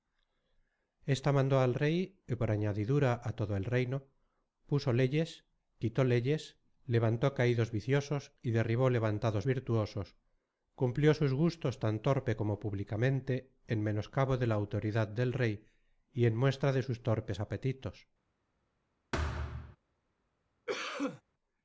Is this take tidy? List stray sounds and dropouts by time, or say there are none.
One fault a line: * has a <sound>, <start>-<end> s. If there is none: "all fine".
* has a thud, 19.1-19.8 s
* has a cough, 20.7-21.2 s